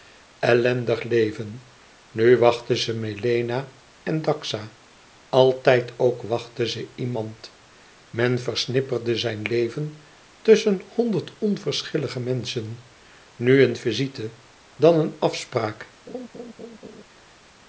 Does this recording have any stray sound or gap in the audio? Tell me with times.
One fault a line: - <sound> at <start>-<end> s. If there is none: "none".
- laugh at 16.1-17.0 s